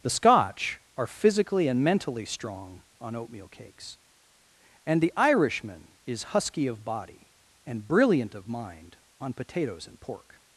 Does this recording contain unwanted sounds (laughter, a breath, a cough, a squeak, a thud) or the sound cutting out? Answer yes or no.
no